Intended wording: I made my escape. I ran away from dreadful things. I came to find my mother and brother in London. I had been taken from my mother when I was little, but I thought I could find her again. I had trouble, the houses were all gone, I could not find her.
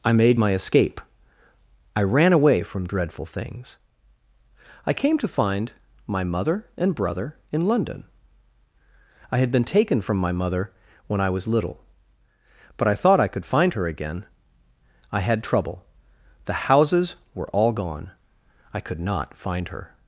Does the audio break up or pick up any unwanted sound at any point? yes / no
no